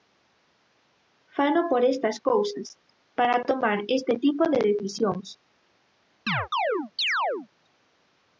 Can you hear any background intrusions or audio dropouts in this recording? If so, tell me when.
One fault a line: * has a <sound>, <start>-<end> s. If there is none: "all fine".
* has a chirp, 6.3-7.5 s